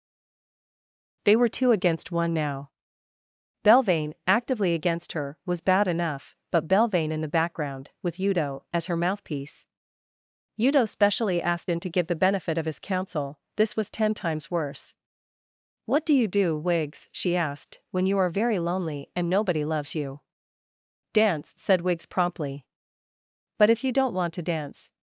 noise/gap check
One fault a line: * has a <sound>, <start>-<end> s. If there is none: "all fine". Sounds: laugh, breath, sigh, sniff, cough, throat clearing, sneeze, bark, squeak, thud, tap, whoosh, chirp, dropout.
all fine